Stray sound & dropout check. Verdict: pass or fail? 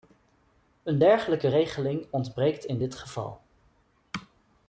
pass